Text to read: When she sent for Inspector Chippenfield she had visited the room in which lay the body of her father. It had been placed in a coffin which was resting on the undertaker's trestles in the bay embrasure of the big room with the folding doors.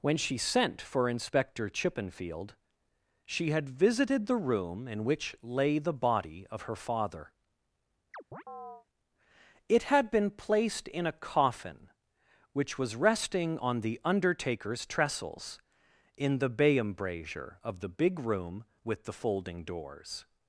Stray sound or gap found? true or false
true